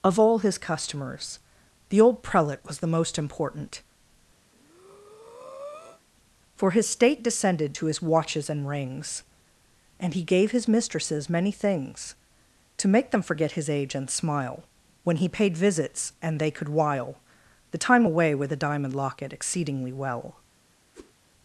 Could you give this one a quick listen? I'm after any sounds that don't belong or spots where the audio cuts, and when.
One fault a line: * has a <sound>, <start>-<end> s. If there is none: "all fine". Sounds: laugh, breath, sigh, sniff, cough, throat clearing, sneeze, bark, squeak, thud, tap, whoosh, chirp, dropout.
* has a breath, 4.5-6.0 s
* has a whoosh, 20.9-21.1 s